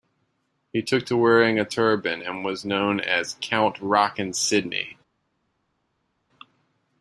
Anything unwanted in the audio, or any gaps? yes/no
no